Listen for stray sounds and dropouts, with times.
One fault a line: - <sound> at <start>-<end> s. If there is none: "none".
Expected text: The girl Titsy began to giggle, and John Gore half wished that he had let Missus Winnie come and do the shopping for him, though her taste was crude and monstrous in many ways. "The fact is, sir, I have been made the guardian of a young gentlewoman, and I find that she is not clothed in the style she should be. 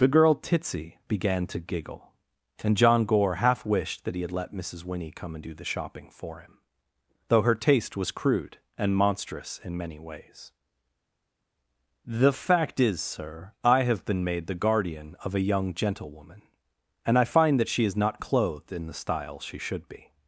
none